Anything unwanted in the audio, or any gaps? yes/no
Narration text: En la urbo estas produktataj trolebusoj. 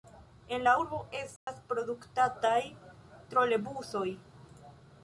yes